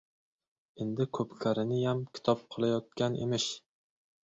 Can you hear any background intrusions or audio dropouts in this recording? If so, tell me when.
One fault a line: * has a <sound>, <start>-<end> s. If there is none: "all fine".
all fine